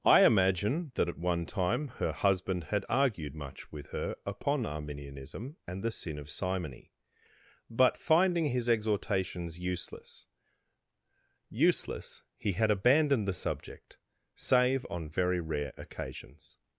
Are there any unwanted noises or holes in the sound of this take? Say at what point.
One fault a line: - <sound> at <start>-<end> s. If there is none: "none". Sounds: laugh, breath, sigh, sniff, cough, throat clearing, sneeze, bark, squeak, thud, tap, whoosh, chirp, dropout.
none